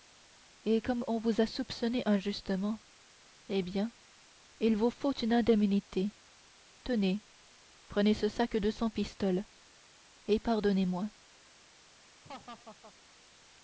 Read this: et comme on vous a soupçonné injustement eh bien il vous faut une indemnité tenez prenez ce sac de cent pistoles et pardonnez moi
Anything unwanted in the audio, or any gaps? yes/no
yes